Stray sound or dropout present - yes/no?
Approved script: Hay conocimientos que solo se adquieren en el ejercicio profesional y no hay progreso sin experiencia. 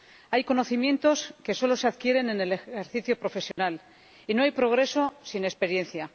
yes